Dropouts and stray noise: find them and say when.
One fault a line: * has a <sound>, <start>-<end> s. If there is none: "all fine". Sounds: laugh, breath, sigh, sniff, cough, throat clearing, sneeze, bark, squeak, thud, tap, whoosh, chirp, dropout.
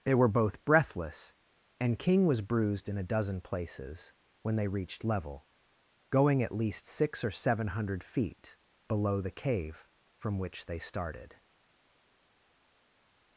all fine